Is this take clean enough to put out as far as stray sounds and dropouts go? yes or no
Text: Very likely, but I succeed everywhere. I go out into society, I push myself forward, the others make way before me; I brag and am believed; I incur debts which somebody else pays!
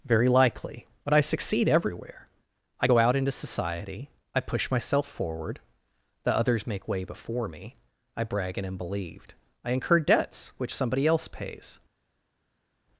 yes